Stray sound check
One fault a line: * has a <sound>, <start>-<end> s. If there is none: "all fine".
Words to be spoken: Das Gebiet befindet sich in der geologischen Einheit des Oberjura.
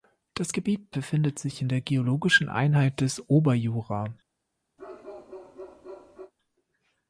* has a bark, 4.8-6.3 s